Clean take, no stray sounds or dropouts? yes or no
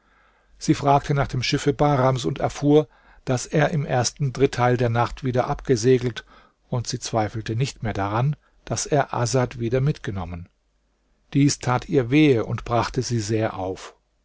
yes